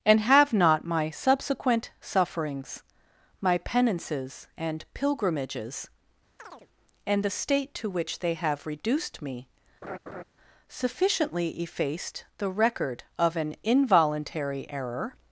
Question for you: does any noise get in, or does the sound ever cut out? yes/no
yes